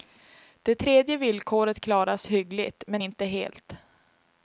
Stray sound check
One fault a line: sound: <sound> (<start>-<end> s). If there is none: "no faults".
no faults